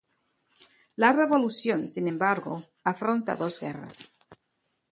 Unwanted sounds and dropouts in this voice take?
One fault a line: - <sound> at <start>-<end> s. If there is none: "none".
none